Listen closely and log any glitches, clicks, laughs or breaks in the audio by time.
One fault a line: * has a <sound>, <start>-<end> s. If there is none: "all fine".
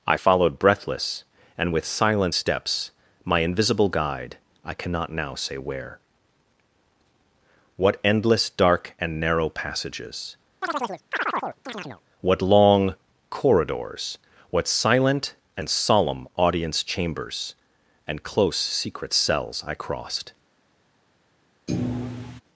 * has a chirp, 10.6-12.0 s
* has a thud, 21.7-22.4 s